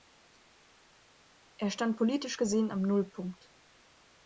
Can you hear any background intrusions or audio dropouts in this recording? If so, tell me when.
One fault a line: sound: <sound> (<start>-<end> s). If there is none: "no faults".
no faults